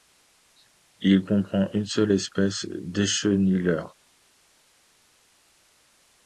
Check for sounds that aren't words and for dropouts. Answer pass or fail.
pass